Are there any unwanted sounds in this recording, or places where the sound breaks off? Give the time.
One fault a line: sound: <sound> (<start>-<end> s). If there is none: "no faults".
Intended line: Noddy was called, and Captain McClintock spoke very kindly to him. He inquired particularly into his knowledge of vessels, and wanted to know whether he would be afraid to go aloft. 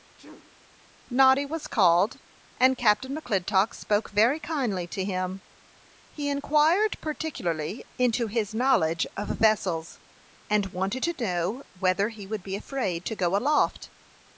sound: sneeze (0.2-0.6 s)